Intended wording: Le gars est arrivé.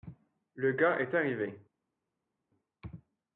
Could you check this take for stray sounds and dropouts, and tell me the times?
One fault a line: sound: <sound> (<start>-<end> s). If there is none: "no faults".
no faults